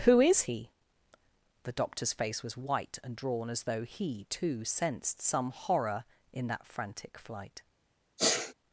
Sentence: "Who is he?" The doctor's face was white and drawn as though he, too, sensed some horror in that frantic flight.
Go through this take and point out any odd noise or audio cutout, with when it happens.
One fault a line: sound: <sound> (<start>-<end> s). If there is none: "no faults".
sound: sneeze (8.2-8.5 s)